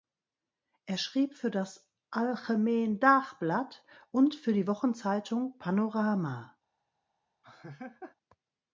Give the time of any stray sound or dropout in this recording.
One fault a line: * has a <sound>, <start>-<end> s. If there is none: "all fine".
* has a laugh, 7.4-8.2 s